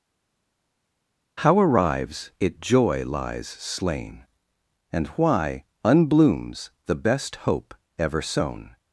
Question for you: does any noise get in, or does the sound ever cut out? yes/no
no